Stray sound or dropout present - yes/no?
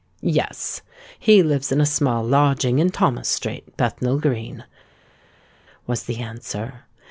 no